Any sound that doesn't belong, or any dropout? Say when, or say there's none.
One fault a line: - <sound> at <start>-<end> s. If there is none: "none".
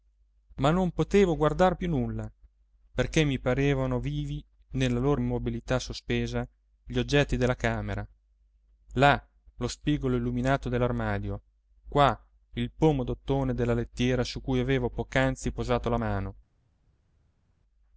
none